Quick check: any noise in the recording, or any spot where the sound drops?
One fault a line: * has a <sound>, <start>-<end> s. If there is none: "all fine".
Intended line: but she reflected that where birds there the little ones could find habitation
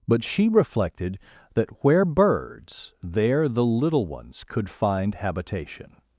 all fine